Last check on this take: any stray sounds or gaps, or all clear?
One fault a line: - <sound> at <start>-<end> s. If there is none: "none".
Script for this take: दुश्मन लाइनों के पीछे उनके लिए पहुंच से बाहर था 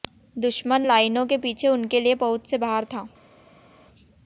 none